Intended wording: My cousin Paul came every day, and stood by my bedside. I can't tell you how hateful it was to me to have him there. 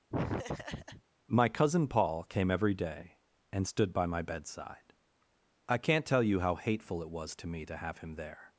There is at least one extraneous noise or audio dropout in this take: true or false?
true